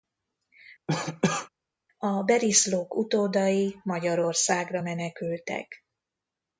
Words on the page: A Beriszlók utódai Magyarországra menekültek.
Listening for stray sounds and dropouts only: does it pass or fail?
fail